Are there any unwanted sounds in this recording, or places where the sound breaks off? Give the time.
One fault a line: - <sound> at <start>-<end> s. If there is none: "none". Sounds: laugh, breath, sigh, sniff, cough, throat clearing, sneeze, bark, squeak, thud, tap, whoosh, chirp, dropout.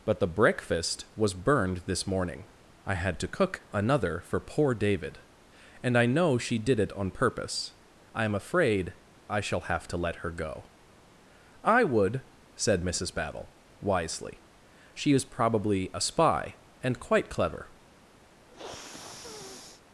- sniff at 18.5-19.8 s